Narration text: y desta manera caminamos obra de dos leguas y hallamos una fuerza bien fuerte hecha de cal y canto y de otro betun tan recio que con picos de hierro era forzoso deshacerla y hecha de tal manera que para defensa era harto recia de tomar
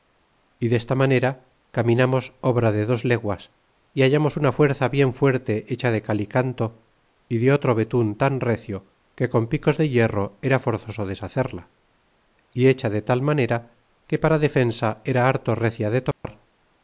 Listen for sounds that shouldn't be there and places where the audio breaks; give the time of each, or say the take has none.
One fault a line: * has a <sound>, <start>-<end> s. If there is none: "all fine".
* has a dropout, 16.1-16.2 s